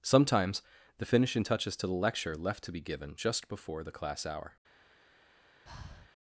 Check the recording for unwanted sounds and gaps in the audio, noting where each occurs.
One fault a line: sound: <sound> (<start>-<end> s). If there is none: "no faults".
sound: breath (5.7-6.1 s)